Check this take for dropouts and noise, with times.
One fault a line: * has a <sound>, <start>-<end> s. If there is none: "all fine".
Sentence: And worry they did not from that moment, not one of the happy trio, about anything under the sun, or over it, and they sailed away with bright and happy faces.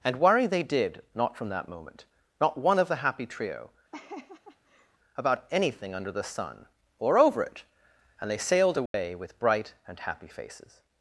* has a laugh, 3.9-5.0 s
* has a dropout, 8.9-8.9 s